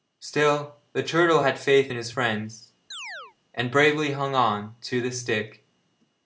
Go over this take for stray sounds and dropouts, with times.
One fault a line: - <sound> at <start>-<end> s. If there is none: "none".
- chirp at 2.9-3.4 s